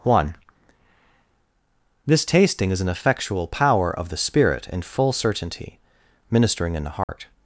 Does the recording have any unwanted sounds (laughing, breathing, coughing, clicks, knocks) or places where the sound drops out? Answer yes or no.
yes